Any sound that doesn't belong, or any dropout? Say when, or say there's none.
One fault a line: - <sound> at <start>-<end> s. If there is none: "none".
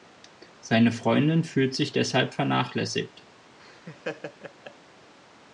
- laugh at 3.6-4.8 s